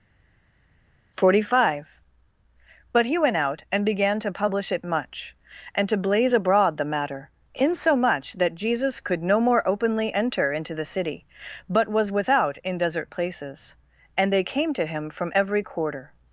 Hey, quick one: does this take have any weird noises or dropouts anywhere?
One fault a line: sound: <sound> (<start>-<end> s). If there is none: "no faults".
no faults